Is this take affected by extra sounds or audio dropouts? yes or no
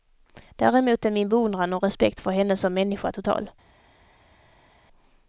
no